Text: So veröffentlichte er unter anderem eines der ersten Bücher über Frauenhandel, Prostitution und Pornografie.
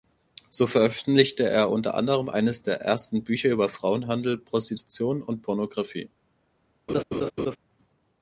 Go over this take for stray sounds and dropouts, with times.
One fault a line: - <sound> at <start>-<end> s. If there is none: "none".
- laugh at 6.9-7.6 s